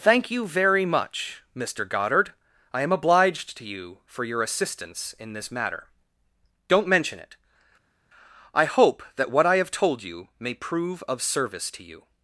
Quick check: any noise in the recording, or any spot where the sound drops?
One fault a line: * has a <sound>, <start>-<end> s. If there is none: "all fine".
all fine